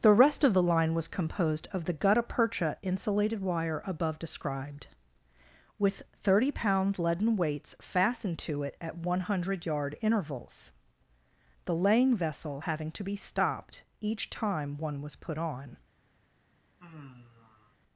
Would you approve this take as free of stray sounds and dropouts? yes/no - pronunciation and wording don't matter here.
no